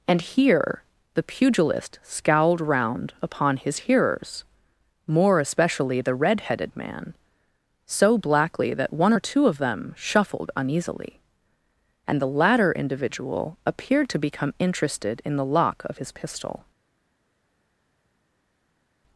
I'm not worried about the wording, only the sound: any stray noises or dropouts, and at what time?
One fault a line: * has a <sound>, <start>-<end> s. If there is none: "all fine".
all fine